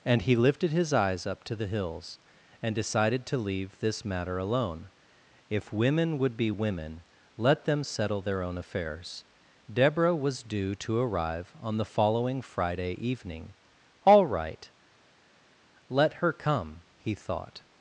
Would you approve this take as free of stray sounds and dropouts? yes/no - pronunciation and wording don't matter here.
yes